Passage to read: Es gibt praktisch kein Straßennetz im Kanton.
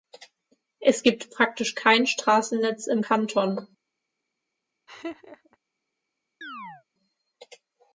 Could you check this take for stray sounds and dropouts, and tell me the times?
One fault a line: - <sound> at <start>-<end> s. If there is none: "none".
- laugh at 4.9-5.6 s
- chirp at 6.4-6.8 s